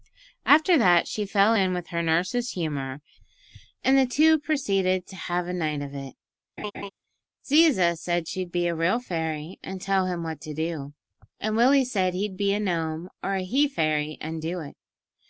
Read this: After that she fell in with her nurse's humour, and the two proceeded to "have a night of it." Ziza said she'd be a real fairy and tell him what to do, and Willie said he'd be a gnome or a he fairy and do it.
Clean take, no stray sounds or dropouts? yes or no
no